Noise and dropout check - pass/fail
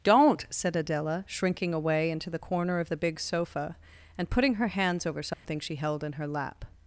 fail